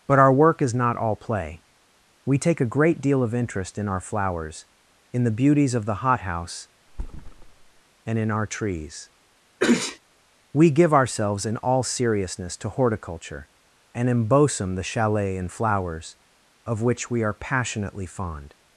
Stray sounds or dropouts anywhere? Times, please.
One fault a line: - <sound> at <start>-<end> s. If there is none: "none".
- thud at 6.9-7.8 s
- sneeze at 9.6-10.0 s